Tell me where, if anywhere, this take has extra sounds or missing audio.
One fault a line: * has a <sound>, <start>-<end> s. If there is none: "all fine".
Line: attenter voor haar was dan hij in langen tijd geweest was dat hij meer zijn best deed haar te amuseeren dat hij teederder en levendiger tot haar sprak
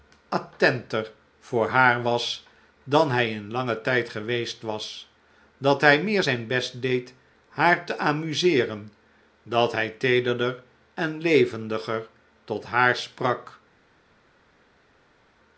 all fine